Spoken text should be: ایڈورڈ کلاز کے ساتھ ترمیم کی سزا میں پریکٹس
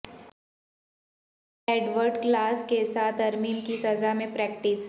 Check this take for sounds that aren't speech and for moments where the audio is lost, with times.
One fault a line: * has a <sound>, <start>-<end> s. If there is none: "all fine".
all fine